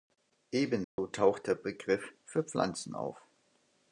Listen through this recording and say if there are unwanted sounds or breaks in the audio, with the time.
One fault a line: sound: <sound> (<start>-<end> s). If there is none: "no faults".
sound: dropout (0.8-1.0 s)